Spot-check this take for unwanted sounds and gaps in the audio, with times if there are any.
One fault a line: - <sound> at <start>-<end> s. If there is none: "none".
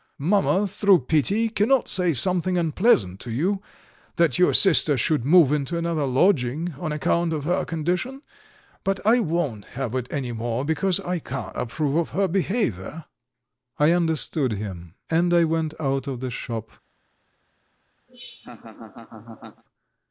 - laugh at 18.1-19.6 s